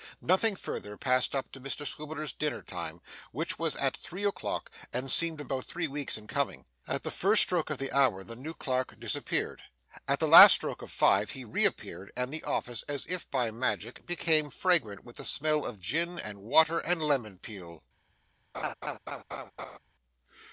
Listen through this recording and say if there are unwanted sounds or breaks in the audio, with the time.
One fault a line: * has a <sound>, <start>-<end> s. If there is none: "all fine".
* has a laugh, 18.5-19.8 s